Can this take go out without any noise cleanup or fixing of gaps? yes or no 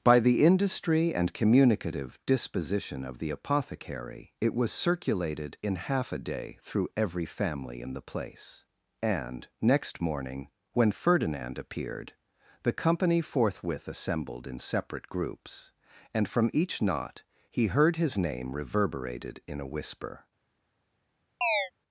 no